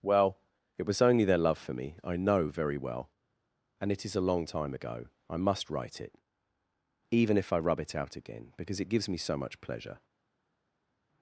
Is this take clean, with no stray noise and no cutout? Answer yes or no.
yes